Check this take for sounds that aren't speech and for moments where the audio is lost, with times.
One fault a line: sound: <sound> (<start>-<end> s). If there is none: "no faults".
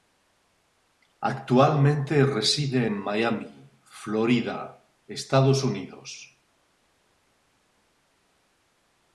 no faults